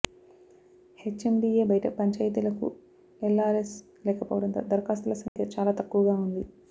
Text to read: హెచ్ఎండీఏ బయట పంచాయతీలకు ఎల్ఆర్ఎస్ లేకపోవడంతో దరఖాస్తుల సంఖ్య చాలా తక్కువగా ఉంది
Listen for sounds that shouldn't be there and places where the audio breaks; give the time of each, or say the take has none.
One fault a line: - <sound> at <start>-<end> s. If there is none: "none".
- dropout at 5.3-5.4 s